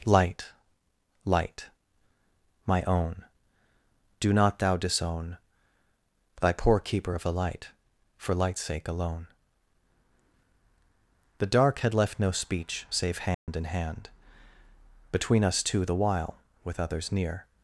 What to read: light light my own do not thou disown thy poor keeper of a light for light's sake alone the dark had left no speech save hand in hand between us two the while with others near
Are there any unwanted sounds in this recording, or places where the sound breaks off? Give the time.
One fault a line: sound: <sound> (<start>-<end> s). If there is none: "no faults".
sound: dropout (13.3-13.5 s)